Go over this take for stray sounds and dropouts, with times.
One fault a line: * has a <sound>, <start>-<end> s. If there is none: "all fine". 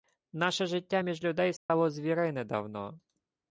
* has a dropout, 1.6-1.7 s